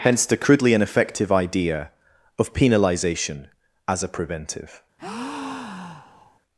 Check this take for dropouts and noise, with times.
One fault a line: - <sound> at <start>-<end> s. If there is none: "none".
- breath at 5.0-6.4 s